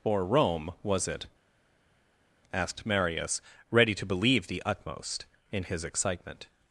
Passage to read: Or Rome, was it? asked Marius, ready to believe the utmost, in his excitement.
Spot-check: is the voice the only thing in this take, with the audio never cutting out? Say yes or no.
yes